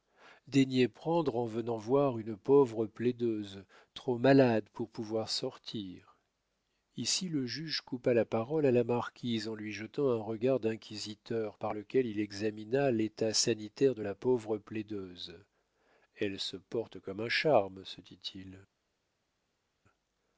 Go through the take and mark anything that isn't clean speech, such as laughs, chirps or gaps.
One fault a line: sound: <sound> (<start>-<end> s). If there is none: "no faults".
no faults